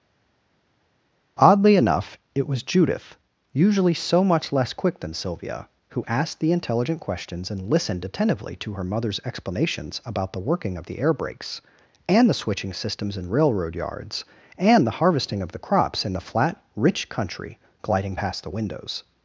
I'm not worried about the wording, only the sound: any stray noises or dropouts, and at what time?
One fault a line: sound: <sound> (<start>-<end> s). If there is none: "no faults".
no faults